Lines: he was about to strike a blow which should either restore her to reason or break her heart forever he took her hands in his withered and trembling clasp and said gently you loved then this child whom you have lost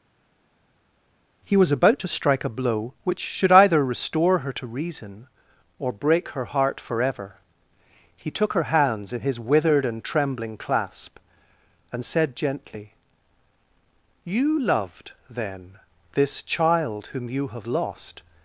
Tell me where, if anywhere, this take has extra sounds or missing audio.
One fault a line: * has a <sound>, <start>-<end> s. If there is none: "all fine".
all fine